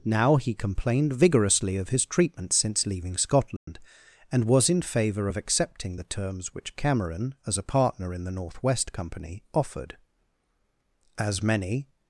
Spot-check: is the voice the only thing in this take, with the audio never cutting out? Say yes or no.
no